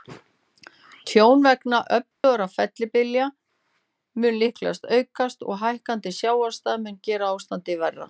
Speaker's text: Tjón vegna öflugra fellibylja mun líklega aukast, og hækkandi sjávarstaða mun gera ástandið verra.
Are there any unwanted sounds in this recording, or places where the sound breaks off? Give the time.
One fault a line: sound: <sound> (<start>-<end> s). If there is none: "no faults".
sound: dropout (2.1-2.2 s)